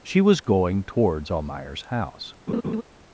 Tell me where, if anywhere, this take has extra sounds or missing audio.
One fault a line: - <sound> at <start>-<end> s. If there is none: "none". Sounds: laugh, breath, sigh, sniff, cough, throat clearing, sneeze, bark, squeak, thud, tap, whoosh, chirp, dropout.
- laugh at 2.5-2.8 s